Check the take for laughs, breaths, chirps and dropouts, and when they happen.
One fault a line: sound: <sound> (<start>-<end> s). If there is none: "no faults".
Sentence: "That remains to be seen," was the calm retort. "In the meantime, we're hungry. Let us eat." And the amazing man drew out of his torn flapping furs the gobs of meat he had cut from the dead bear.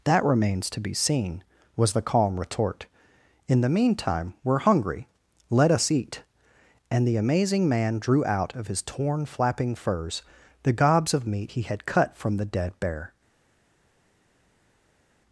no faults